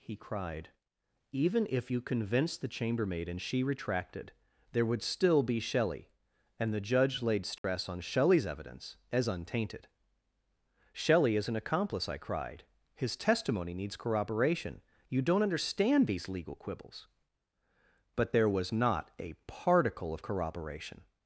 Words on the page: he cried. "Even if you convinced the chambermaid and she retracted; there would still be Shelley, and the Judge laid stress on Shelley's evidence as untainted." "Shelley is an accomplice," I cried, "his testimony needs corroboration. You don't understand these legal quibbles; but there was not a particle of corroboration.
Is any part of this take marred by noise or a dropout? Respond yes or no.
yes